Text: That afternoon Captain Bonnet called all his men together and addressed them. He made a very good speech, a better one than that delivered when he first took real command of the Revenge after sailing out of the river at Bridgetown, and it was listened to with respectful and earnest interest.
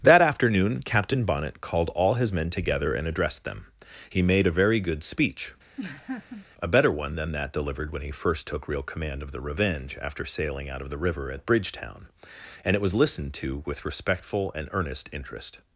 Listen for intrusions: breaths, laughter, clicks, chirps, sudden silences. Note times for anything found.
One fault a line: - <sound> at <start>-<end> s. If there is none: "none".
- laugh at 5.8-6.5 s